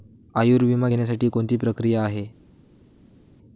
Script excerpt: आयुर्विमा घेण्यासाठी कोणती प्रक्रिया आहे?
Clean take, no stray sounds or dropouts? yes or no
yes